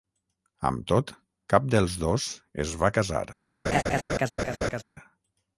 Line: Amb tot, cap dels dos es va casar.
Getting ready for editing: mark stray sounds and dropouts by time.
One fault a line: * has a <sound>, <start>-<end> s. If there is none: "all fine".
* has a laugh, 3.6-4.8 s